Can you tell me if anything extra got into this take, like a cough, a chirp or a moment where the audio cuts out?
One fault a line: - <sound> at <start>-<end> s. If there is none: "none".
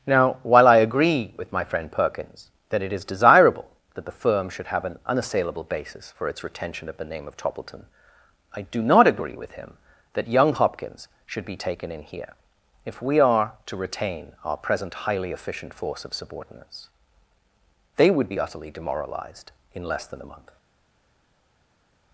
none